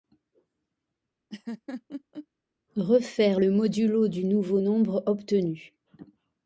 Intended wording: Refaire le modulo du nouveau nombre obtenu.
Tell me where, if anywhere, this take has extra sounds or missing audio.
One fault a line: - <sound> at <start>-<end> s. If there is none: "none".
- laugh at 1.3-2.3 s